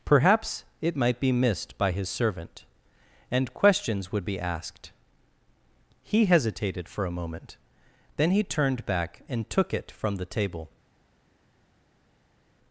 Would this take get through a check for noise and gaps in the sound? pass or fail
pass